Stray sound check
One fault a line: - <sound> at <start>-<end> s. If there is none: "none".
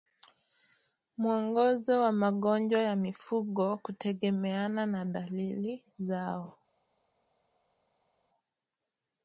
none